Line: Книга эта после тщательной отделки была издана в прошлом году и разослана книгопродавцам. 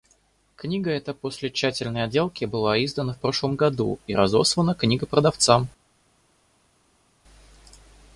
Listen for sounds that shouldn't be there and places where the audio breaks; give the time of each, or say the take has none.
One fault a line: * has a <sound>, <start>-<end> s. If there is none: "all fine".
all fine